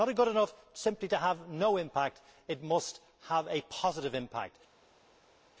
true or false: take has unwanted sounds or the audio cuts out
false